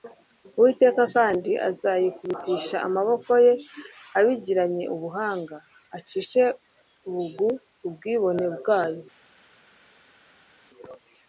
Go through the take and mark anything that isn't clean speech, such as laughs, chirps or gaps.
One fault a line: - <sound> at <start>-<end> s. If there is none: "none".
none